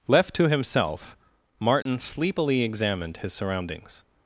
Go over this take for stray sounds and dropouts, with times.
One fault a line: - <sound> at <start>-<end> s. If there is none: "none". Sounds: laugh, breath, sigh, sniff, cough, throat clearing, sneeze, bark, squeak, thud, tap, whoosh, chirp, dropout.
- dropout at 1.8-1.9 s